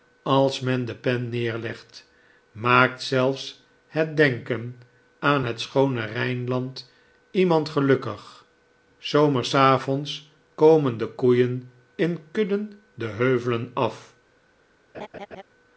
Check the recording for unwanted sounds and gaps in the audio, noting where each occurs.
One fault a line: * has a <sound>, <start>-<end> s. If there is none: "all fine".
* has a laugh, 14.9-15.4 s